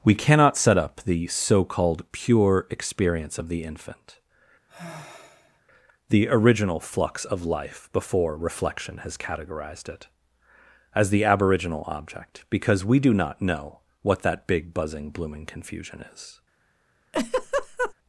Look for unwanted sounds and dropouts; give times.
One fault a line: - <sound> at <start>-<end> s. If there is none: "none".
- sigh at 4.7-5.6 s
- laugh at 17.1-17.9 s